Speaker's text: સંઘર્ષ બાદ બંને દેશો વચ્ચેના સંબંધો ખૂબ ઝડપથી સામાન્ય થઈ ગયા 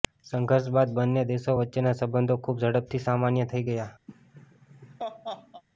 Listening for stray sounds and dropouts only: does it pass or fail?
fail